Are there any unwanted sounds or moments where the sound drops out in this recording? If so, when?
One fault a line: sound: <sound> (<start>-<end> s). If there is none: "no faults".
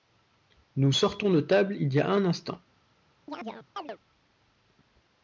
sound: chirp (3.3-4.0 s)